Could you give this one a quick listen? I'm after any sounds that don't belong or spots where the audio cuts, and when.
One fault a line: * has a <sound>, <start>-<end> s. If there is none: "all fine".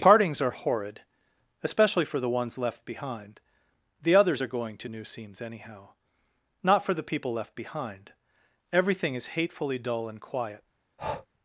* has a breath, 11.0-11.3 s